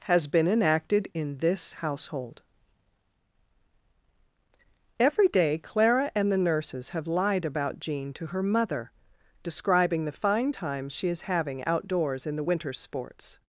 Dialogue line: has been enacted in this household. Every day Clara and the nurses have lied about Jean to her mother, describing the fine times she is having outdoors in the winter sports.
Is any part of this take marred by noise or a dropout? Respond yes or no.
no